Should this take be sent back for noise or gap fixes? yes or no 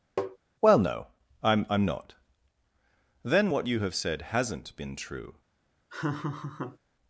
yes